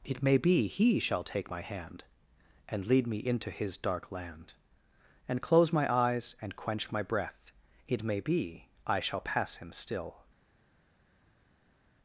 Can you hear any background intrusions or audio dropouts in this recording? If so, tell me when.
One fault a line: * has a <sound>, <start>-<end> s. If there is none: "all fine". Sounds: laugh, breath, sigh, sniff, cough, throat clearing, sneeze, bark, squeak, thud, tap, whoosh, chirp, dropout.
all fine